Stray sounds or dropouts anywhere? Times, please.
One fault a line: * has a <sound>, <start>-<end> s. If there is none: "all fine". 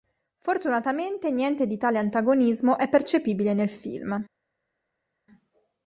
all fine